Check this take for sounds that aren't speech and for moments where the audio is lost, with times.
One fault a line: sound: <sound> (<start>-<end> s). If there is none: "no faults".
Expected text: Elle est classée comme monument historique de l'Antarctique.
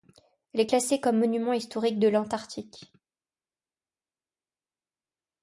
no faults